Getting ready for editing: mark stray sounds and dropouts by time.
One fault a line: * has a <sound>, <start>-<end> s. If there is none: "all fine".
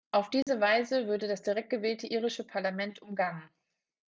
* has a dropout, 0.4-0.5 s